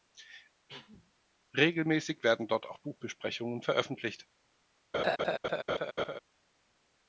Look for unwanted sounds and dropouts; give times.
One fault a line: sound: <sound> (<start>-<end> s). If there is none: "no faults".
sound: cough (0.7-1.1 s)
sound: laugh (4.9-6.2 s)